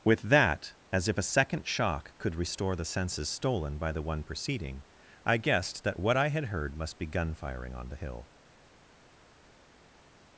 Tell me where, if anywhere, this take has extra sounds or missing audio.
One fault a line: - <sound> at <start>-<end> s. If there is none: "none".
none